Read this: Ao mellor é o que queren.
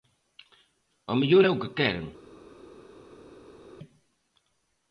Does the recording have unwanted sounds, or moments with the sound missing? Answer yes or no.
no